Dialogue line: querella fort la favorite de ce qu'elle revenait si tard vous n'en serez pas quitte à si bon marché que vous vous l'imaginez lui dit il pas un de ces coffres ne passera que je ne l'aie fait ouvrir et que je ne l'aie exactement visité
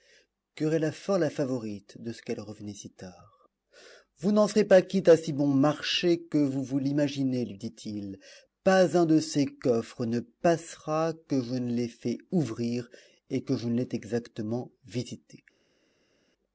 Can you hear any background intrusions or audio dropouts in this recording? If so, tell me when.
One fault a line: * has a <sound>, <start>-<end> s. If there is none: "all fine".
all fine